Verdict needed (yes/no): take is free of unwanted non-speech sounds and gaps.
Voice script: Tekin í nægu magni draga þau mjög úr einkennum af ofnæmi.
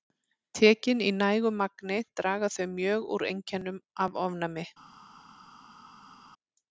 yes